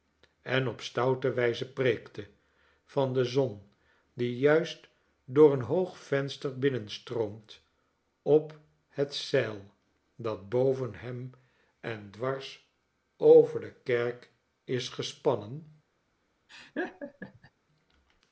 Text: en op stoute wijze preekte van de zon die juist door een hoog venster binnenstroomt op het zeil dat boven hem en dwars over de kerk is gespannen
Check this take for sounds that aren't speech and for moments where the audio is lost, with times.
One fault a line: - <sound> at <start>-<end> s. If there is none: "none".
- laugh at 16.5-17.5 s